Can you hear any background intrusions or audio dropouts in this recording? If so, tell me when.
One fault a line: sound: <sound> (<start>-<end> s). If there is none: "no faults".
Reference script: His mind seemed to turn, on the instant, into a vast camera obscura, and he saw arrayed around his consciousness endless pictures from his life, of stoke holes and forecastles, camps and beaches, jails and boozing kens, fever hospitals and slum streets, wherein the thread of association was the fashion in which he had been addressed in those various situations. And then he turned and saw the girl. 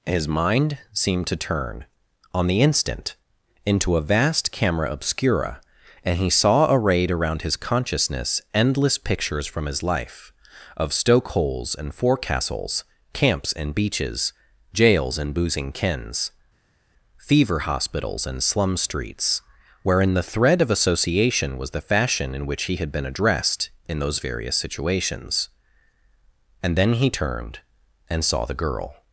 no faults